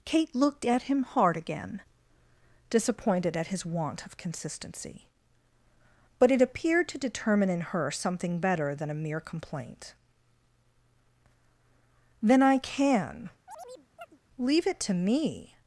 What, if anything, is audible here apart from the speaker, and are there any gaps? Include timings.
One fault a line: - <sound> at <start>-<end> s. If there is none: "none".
- chirp at 13.5-14.2 s